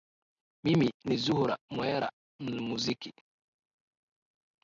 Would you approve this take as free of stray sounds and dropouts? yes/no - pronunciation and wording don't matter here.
yes